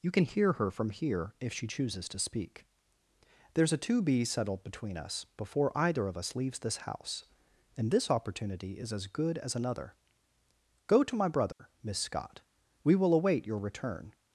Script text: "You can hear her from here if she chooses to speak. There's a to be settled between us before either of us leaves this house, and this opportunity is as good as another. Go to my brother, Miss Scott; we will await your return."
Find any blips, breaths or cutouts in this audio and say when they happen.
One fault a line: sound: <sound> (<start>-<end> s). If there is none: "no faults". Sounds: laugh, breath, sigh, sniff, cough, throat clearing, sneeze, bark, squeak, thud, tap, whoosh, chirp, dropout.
sound: dropout (11.5-11.6 s)